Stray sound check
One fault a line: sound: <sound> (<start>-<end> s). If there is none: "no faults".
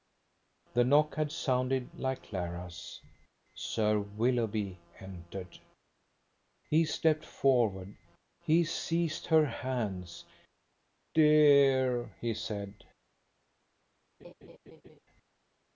sound: laugh (14.2-15.0 s)